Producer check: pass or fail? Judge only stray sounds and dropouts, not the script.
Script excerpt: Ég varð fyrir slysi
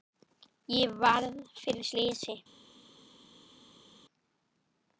pass